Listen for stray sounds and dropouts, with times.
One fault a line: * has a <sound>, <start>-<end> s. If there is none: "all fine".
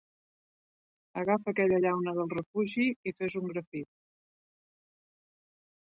all fine